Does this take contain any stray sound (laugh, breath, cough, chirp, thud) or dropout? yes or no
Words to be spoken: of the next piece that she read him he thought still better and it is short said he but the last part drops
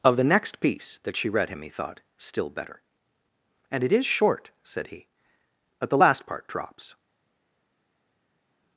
no